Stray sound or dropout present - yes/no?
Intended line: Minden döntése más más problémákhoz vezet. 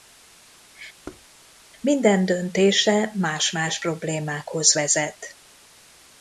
yes